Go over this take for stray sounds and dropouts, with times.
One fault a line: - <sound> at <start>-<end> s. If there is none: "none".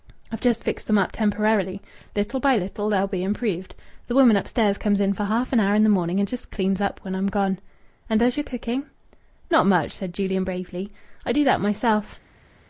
none